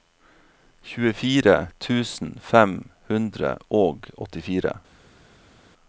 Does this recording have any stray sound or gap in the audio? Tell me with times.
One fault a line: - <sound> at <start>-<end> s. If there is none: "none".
none